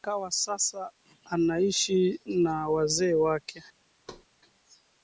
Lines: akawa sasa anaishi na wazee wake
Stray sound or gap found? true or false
true